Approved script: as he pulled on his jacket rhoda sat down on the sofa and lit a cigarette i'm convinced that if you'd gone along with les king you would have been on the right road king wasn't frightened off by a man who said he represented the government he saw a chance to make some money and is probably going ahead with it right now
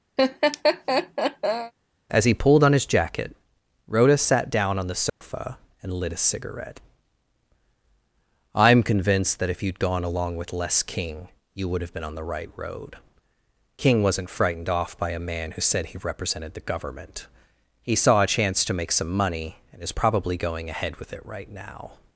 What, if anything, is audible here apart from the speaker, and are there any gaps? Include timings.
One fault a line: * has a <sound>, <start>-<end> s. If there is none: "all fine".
* has a laugh, 0.2-1.7 s
* has a dropout, 5.1-5.2 s